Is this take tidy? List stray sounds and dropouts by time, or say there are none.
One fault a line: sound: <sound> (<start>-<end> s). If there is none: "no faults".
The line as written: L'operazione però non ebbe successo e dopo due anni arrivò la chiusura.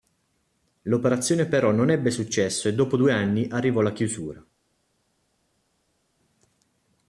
no faults